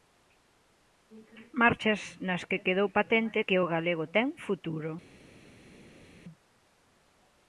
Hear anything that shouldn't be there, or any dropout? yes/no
no